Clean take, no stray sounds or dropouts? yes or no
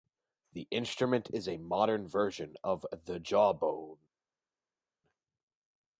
yes